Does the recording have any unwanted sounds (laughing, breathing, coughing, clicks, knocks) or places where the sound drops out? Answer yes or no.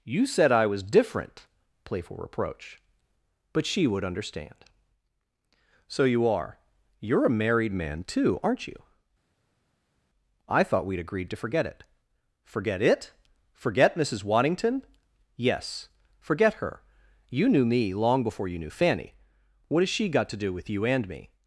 no